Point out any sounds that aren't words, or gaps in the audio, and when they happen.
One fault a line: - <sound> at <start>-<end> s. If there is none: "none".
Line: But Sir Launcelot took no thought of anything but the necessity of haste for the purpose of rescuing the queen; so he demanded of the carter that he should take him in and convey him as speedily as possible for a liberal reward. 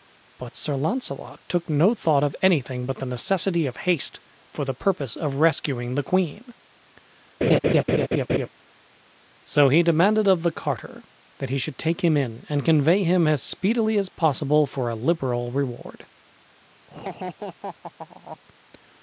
- laugh at 7.4-8.5 s
- laugh at 16.9-18.4 s